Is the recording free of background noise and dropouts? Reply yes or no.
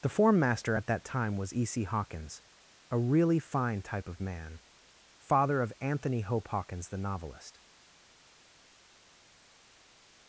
yes